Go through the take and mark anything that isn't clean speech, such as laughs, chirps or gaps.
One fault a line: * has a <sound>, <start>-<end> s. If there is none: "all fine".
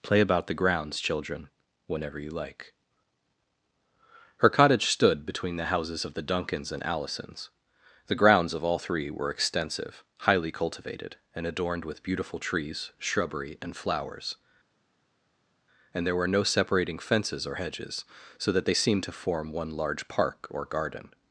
all fine